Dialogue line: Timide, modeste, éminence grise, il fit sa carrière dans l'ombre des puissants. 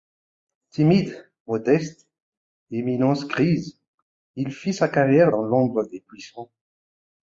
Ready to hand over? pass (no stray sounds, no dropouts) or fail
pass